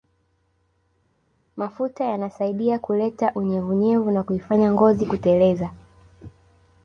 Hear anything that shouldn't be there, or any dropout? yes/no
no